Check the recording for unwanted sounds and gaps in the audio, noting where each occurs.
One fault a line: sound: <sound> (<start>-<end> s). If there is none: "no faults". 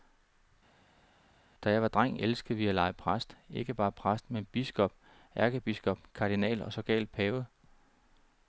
no faults